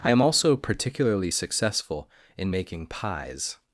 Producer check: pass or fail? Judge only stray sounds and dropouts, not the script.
pass